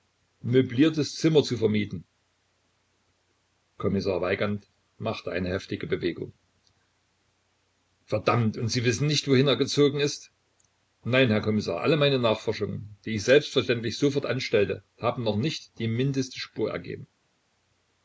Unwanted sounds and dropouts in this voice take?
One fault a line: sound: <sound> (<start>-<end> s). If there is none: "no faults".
no faults